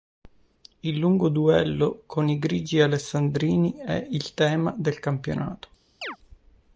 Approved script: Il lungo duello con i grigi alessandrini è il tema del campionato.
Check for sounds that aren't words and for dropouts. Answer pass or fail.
fail